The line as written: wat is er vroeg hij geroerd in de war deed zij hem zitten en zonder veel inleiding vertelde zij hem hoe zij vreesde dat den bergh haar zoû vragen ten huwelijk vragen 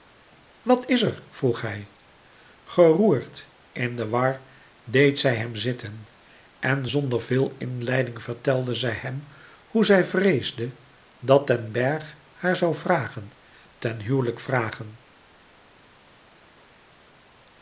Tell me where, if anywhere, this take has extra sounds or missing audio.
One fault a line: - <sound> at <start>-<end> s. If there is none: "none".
none